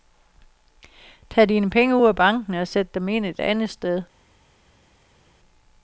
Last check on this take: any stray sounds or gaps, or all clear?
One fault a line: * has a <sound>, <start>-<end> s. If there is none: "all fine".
all fine